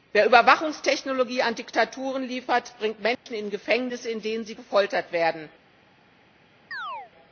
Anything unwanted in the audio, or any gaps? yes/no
yes